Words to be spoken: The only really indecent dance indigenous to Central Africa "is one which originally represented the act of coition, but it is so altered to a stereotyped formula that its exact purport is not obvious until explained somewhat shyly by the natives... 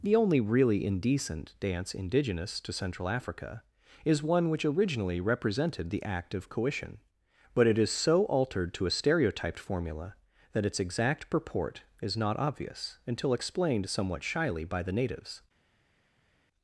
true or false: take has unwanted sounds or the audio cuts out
false